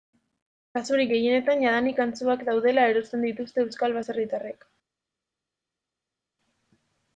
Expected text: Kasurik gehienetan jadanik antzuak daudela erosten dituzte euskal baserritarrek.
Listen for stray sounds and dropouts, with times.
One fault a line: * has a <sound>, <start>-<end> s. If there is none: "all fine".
all fine